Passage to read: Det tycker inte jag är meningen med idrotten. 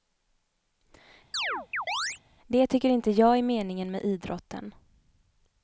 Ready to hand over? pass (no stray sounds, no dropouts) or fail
fail